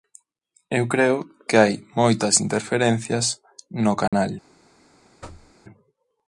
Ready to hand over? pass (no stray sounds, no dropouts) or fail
fail